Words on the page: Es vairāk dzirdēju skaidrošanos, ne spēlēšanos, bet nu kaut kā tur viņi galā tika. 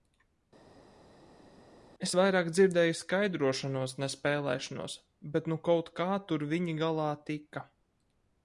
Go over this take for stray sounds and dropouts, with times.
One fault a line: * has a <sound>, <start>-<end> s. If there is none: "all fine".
all fine